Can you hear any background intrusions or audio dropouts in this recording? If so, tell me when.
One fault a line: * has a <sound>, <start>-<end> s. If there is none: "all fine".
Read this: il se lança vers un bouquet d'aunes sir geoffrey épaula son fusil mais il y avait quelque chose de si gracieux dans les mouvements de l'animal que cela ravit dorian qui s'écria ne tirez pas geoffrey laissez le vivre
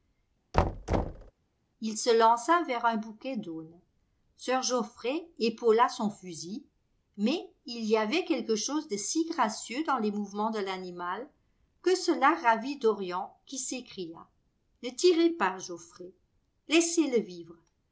* has a thud, 0.5-1.3 s